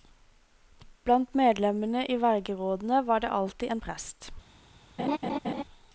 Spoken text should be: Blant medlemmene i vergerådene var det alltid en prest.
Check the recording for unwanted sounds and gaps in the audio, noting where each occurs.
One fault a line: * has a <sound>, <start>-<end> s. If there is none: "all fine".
* has a laugh, 5.0-5.6 s